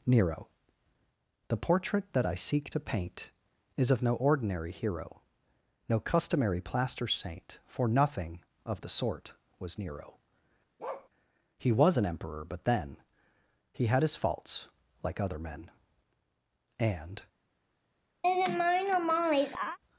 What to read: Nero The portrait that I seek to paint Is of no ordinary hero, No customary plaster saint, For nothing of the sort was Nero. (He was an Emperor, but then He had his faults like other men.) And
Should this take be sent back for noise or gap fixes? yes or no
yes